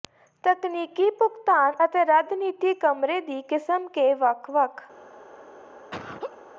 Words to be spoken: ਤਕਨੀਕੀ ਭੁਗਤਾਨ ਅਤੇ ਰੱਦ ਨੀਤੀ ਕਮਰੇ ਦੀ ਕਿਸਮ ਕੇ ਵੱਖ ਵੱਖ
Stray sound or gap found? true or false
true